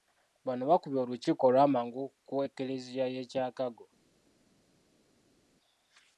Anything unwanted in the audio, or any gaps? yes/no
no